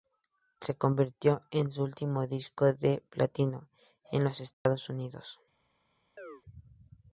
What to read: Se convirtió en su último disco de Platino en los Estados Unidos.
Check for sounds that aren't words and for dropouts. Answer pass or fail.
fail